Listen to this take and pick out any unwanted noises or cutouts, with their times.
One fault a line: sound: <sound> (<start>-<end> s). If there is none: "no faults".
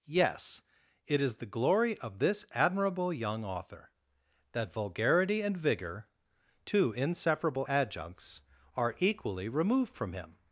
no faults